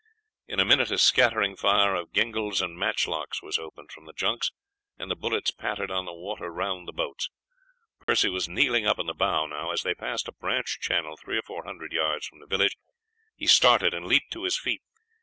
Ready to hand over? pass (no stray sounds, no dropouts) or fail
fail